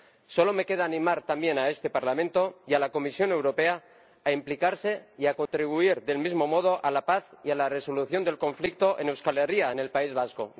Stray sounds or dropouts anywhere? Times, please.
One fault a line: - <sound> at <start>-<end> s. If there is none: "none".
- dropout at 5.5-5.5 s